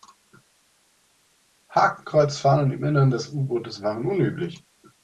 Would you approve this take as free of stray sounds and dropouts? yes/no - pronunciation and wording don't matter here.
yes